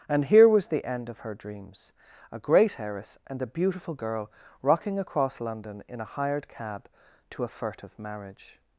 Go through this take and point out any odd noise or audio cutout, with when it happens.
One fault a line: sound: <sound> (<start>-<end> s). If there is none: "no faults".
no faults